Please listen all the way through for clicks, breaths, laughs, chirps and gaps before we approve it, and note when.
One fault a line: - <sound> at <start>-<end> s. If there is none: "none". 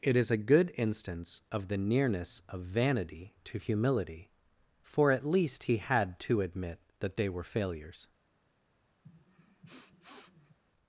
- sniff at 9.0-10.6 s